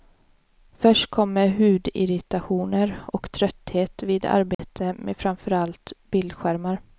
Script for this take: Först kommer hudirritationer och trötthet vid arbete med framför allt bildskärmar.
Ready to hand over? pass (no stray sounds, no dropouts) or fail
fail